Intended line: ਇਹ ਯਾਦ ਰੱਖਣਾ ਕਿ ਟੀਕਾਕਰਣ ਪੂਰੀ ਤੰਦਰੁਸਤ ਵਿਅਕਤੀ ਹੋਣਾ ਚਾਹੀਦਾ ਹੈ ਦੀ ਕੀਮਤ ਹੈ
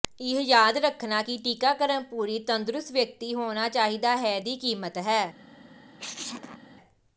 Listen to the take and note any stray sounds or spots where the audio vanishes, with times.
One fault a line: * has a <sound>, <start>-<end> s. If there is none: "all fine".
* has a sneeze, 6.0-6.7 s